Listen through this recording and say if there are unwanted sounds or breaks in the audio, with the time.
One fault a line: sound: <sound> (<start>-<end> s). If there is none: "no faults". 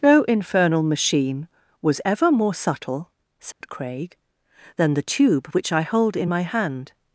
sound: dropout (3.5-3.6 s)